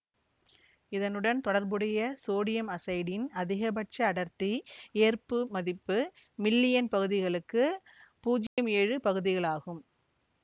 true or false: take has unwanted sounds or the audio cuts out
true